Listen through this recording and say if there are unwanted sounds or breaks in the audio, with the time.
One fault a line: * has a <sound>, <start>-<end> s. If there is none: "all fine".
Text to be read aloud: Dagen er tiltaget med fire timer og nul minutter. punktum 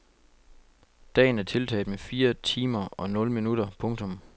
all fine